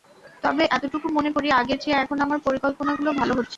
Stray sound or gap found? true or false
false